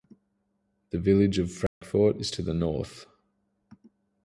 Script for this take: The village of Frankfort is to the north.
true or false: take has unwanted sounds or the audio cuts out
true